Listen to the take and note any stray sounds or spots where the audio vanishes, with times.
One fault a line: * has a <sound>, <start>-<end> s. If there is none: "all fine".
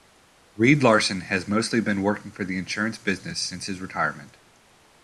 all fine